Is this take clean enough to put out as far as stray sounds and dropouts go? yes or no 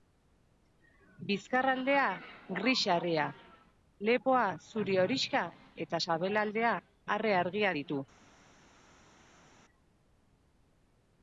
yes